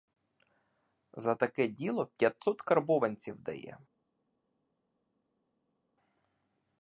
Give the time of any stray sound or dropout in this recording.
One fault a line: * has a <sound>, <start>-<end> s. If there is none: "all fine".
all fine